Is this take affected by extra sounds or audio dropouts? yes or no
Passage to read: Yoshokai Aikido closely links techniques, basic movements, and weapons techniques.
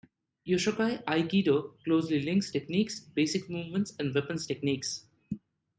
no